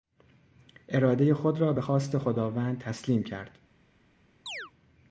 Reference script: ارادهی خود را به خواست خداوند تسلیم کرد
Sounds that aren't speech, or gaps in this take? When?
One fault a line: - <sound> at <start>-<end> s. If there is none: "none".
- chirp at 4.5-4.7 s